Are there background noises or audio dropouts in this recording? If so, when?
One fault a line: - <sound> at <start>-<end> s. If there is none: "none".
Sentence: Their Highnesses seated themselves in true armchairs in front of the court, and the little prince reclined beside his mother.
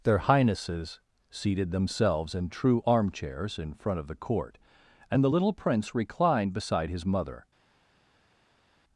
none